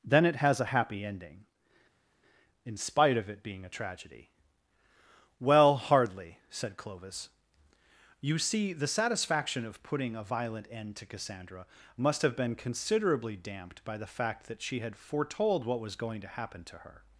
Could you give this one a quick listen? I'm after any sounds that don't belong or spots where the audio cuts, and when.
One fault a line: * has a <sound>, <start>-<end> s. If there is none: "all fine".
all fine